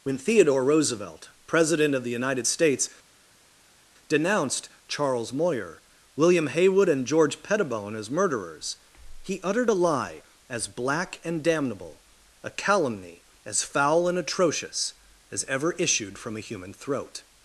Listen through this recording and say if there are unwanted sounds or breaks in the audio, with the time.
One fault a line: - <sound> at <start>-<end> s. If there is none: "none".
none